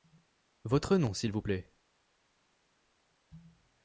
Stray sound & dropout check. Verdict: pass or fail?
pass